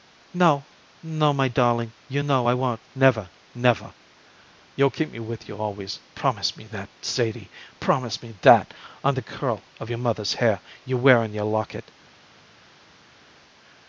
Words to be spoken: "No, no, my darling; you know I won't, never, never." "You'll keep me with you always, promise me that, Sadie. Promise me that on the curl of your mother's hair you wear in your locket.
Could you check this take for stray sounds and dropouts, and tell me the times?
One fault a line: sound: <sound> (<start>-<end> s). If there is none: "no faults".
no faults